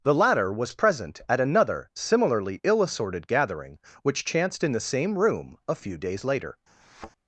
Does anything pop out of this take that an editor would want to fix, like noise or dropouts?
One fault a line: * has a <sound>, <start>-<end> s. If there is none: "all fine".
* has a thud, 6.8-7.1 s